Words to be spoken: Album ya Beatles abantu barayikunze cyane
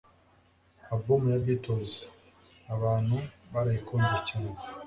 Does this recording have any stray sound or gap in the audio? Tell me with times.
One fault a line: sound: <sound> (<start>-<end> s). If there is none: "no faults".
no faults